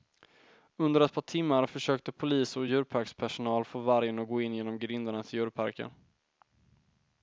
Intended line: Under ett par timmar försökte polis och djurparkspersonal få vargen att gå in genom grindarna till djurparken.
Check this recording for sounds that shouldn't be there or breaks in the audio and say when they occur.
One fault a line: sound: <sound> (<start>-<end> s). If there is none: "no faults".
no faults